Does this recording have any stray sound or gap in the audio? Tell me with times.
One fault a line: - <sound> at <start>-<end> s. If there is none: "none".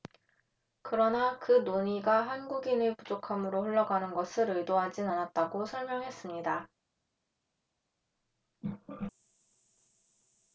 none